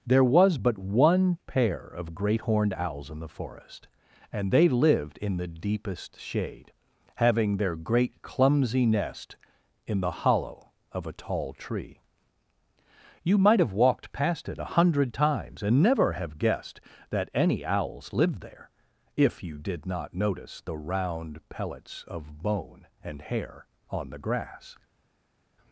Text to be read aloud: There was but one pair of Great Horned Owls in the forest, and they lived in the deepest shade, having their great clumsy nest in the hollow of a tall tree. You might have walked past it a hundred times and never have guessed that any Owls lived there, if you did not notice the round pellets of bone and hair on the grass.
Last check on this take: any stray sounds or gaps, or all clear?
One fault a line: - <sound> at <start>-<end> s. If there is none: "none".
none